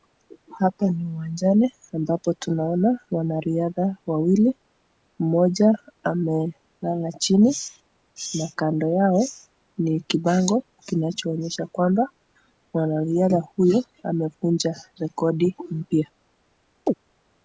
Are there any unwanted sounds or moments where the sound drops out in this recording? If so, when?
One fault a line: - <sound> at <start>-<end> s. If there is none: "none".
- chirp at 16.9-16.9 s